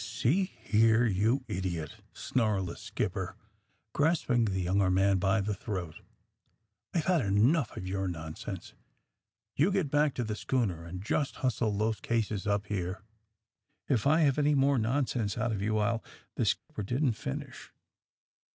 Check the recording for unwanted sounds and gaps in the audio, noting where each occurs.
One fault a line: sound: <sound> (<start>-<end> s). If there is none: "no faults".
sound: dropout (16.6-16.7 s)